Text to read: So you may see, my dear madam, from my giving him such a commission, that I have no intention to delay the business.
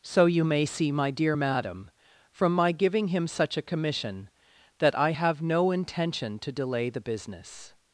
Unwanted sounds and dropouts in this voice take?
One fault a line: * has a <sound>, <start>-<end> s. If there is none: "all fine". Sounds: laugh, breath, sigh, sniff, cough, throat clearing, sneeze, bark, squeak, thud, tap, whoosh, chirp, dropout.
all fine